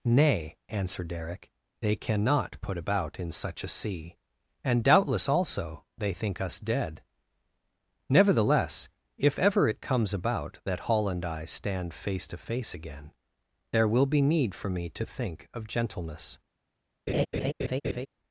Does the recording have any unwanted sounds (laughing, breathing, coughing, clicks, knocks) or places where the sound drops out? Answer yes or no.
yes